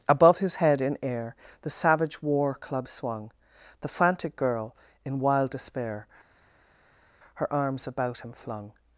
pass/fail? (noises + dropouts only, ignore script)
pass